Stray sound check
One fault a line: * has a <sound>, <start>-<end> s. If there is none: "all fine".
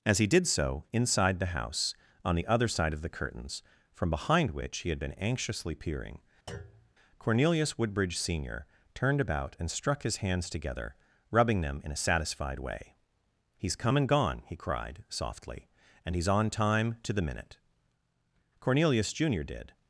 * has a thud, 6.5-6.9 s